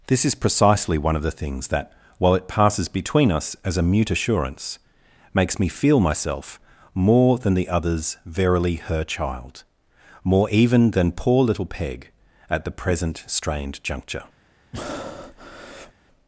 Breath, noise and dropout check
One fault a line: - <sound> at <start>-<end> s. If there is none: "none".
- breath at 14.7-15.9 s